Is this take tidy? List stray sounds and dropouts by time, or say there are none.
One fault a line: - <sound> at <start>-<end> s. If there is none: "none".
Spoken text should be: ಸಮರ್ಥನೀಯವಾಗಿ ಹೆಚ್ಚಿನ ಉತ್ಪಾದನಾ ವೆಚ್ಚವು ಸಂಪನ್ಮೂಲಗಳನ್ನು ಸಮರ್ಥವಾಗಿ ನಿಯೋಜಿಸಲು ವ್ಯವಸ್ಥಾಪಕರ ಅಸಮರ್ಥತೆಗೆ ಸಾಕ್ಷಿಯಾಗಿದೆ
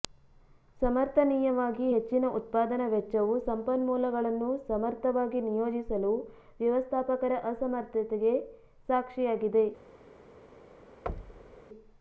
- thud at 11.1-11.6 s